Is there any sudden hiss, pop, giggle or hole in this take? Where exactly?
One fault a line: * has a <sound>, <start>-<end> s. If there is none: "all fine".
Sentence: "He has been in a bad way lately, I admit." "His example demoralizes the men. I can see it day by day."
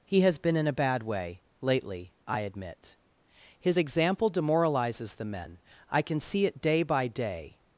all fine